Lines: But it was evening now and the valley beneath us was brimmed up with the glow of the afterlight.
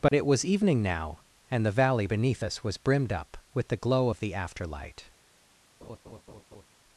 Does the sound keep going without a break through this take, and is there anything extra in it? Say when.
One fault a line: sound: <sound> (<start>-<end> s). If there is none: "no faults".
sound: dropout (0.1-0.1 s)
sound: laugh (5.8-6.7 s)